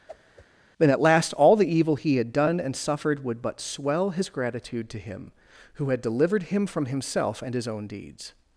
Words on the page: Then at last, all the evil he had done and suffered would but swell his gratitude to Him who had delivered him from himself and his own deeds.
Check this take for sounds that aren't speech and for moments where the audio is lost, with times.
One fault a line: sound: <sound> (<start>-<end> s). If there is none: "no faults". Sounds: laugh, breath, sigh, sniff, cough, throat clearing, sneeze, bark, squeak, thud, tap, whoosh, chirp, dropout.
sound: whoosh (0.1-0.5 s)